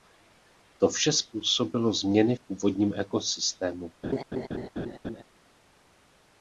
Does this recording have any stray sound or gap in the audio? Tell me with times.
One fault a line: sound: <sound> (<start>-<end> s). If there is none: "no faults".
sound: laugh (4.0-5.2 s)